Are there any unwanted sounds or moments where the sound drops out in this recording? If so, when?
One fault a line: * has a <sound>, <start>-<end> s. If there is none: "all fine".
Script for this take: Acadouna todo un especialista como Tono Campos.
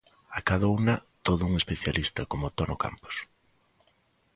all fine